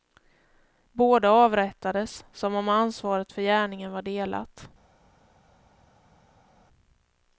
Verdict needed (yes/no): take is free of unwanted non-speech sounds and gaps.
yes